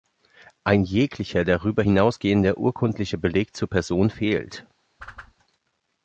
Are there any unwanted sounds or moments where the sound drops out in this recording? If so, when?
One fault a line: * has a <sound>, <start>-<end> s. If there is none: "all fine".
* has a whoosh, 5.0-5.3 s